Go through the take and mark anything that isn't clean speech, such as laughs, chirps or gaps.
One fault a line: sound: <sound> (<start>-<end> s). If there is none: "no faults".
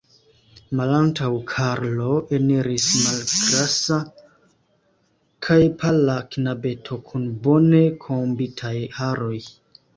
no faults